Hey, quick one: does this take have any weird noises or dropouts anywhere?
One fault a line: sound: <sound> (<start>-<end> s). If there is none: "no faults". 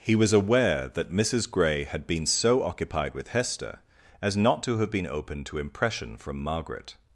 no faults